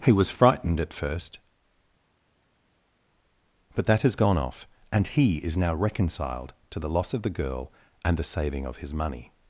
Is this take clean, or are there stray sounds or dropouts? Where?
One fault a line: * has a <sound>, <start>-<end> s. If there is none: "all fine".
all fine